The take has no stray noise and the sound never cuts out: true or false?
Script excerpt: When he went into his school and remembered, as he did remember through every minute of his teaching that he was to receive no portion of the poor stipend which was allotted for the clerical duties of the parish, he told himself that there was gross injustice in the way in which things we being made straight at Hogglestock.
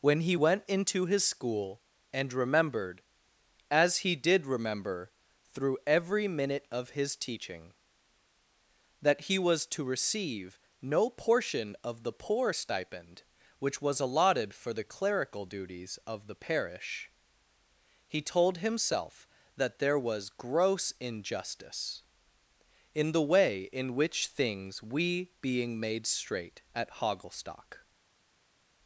true